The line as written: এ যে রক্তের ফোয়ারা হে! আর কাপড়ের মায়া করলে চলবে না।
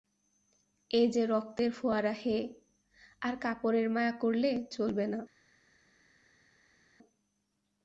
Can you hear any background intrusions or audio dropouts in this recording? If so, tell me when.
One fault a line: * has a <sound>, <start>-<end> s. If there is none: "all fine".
all fine